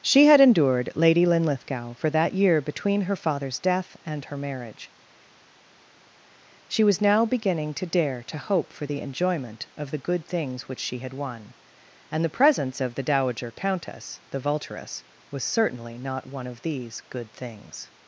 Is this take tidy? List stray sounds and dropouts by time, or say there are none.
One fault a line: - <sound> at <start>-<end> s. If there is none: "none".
none